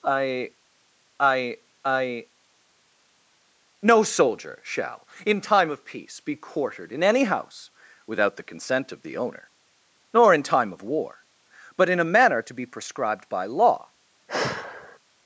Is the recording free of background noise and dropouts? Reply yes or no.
no